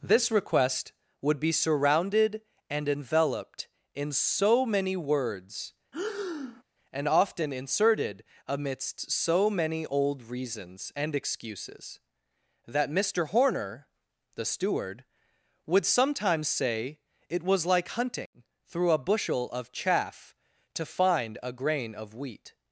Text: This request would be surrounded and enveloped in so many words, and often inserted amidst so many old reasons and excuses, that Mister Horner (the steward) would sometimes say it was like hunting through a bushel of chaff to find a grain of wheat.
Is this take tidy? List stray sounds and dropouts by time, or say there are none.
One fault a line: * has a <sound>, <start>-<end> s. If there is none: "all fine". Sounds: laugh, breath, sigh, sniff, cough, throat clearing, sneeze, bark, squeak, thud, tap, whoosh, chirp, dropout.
* has a breath, 5.9-6.6 s